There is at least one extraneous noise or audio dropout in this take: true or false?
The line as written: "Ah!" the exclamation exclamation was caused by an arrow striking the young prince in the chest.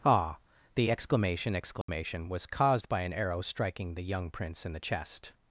true